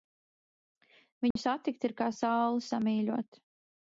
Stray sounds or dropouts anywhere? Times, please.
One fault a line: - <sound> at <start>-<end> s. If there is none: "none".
- dropout at 1.3-1.4 s